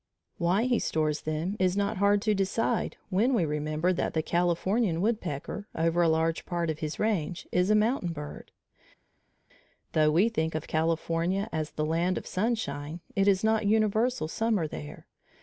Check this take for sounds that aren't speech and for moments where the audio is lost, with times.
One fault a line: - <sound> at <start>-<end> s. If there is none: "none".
none